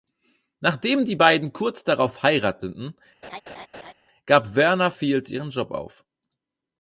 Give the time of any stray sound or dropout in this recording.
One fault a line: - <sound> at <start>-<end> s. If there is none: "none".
- laugh at 3.2-3.9 s